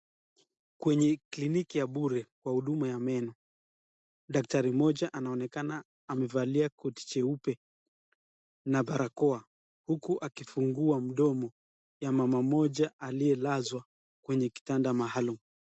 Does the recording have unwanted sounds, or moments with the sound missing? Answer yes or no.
no